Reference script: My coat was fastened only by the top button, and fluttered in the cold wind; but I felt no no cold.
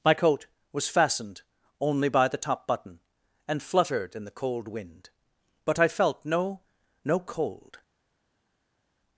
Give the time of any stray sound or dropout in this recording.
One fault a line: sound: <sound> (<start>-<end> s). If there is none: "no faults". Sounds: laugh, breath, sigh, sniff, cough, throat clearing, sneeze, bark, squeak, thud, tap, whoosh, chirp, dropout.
no faults